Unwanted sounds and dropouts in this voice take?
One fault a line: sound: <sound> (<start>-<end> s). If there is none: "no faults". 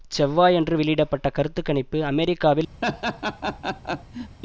sound: laugh (2.8-4.4 s)